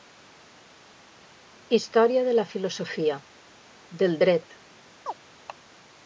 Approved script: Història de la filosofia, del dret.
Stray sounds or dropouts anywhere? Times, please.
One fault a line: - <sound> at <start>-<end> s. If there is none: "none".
- chirp at 5.1-5.1 s